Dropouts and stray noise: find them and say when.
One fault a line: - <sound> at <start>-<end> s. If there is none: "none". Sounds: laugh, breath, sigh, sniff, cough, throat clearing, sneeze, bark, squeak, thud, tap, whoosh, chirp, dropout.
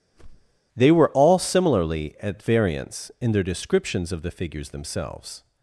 - whoosh at 0.1-0.6 s